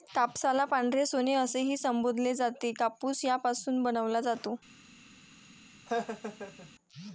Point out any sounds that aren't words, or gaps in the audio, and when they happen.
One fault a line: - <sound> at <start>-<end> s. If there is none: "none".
- laugh at 5.9-6.7 s